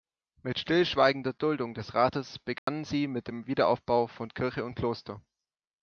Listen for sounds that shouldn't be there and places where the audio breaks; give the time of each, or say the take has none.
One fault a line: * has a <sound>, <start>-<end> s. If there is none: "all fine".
* has a dropout, 2.6-2.7 s